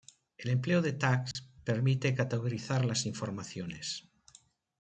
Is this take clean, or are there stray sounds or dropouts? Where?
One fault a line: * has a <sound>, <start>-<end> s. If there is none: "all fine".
* has a dropout, 1.3-1.4 s